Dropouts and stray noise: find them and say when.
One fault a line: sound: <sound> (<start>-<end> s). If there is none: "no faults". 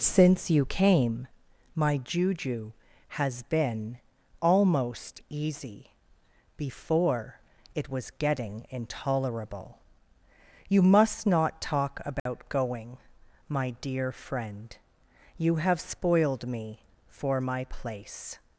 sound: dropout (12.2-12.3 s)